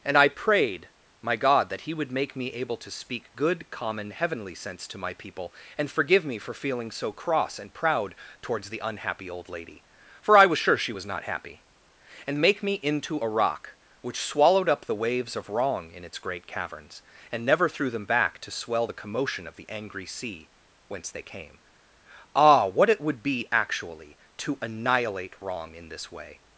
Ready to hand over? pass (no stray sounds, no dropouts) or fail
pass